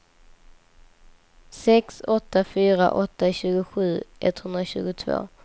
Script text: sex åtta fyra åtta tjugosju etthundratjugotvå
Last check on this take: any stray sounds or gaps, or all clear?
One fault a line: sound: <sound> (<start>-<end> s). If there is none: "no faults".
no faults